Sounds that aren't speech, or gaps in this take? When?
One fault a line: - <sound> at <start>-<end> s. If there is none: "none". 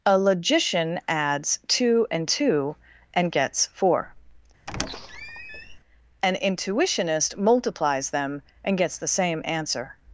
- squeak at 4.7-5.8 s